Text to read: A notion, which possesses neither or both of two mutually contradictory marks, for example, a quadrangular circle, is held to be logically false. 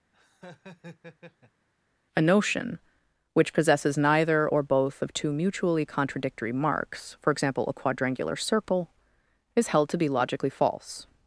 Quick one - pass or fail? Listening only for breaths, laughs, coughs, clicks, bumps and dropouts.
fail